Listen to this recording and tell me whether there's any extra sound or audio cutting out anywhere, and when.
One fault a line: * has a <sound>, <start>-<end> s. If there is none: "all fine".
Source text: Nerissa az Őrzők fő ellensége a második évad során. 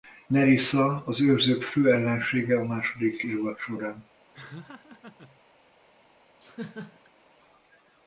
* has a laugh, 4.3-5.4 s
* has a laugh, 6.4-7.1 s